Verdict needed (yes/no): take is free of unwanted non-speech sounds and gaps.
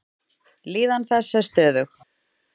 yes